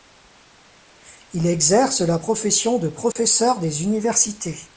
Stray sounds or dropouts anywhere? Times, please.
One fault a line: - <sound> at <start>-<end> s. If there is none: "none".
- dropout at 3.1-3.2 s